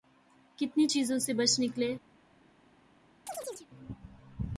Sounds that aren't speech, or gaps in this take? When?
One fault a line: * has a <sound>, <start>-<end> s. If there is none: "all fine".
* has a chirp, 3.3-3.7 s